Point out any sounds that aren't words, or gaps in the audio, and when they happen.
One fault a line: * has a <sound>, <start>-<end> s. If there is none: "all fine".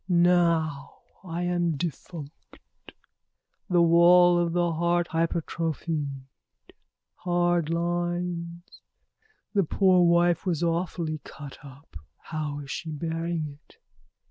all fine